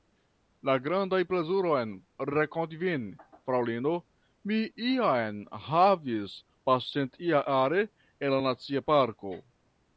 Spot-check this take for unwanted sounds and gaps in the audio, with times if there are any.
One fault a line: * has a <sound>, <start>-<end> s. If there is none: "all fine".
all fine